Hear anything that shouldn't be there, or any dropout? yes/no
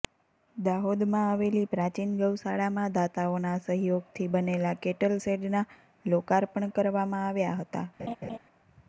yes